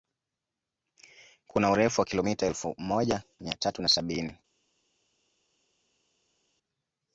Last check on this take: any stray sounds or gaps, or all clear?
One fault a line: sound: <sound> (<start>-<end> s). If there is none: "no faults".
no faults